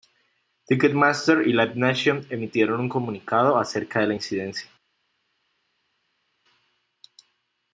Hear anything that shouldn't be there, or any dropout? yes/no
no